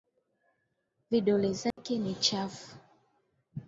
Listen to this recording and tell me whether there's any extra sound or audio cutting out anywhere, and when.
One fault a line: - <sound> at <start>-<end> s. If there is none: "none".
- dropout at 1.7-1.8 s